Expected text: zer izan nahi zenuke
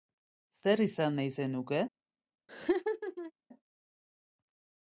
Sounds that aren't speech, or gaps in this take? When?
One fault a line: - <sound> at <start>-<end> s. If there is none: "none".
- laugh at 2.5-3.3 s